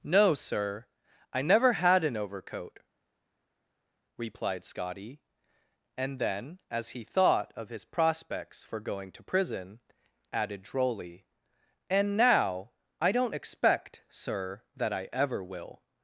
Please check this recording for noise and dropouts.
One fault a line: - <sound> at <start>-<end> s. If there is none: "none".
none